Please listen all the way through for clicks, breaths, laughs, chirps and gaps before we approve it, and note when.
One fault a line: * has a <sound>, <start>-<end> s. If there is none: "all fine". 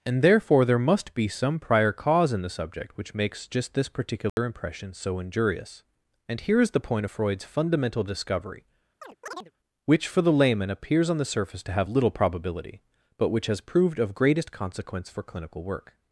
* has a dropout, 4.3-4.4 s
* has a chirp, 9.0-9.5 s